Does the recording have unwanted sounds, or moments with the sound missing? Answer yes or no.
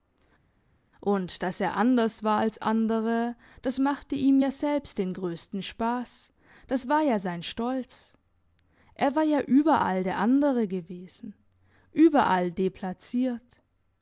no